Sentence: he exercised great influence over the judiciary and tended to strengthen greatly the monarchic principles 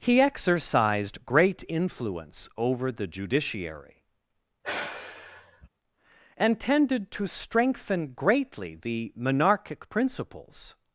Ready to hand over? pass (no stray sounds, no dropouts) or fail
fail